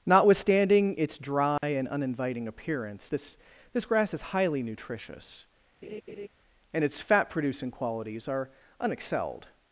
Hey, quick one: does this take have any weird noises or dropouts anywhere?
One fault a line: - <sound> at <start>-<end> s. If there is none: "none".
- dropout at 1.6-1.6 s
- laugh at 5.8-6.3 s